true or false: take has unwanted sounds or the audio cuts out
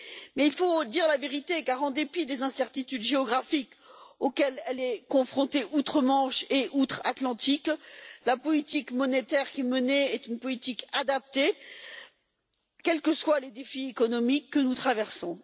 false